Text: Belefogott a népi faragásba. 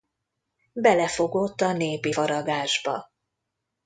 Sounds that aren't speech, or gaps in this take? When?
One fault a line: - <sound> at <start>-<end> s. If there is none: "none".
none